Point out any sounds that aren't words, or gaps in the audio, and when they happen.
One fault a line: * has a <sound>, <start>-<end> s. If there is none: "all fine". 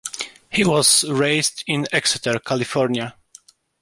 all fine